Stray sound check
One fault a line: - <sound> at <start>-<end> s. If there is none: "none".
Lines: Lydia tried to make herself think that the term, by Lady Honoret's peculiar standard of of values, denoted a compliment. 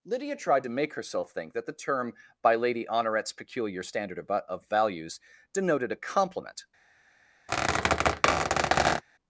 - squeak at 7.5-9.0 s